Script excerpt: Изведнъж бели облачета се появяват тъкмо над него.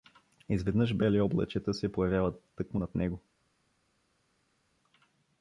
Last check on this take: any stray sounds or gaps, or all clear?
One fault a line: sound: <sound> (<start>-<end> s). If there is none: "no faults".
no faults